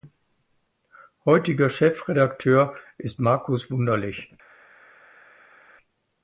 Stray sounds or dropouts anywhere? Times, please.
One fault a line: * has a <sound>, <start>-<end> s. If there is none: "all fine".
all fine